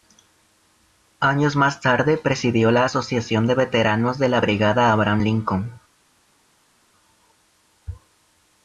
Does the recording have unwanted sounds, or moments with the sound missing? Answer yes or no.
no